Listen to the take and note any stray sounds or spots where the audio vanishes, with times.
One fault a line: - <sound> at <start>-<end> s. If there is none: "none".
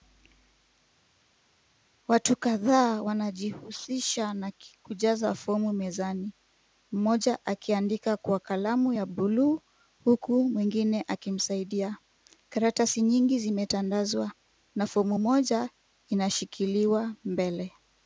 none